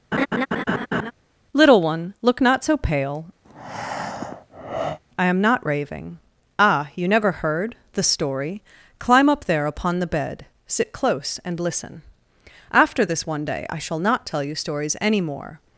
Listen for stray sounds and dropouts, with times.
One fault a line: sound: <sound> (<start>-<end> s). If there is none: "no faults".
sound: laugh (0.1-1.1 s)
sound: breath (3.4-5.0 s)